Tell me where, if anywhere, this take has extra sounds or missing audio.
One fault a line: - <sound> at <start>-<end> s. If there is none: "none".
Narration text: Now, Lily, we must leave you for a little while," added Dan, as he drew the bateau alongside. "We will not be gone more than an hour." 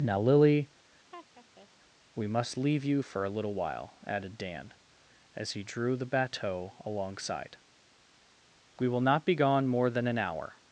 - laugh at 1.1-1.7 s